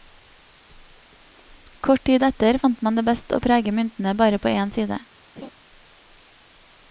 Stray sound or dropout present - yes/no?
yes